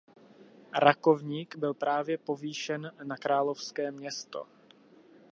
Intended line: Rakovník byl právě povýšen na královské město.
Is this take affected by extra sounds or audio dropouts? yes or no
no